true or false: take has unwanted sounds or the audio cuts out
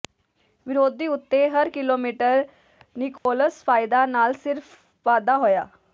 true